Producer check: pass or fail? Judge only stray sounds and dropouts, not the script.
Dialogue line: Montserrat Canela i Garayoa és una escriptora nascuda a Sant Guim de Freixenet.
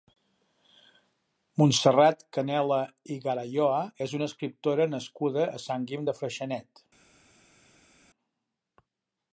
pass